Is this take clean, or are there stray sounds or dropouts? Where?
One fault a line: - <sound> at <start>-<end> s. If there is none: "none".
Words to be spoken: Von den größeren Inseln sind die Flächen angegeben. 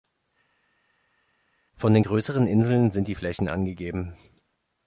none